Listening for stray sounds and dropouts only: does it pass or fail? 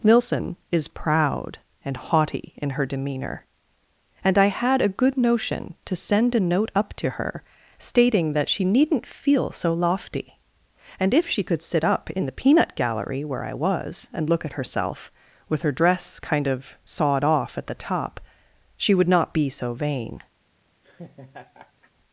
fail